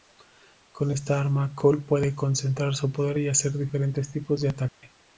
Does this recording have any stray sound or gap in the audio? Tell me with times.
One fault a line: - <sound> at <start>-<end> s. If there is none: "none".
- dropout at 4.7-4.8 s